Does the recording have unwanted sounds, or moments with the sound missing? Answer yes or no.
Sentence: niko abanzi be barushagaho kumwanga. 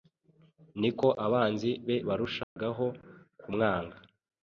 yes